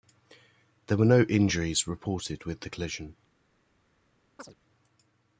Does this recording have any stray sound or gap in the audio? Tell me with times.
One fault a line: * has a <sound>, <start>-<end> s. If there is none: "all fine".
* has a chirp, 4.4-4.5 s